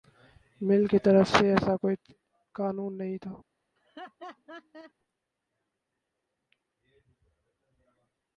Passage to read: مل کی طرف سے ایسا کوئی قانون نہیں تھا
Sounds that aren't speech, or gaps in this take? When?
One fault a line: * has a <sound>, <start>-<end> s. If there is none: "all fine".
* has a laugh, 3.8-4.9 s